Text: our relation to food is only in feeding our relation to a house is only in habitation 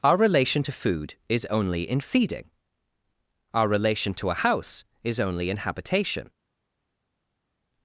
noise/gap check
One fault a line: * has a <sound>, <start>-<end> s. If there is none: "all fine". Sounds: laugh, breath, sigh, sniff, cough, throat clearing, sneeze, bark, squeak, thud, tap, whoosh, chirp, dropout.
all fine